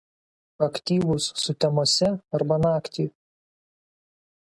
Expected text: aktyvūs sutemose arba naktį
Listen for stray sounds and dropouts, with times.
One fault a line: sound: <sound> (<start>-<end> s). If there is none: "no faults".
no faults